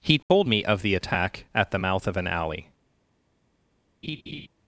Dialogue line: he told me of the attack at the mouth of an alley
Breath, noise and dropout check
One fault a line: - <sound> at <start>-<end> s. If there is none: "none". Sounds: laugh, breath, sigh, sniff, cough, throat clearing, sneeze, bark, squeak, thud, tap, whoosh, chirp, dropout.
- dropout at 0.2-0.3 s
- laugh at 4.0-4.5 s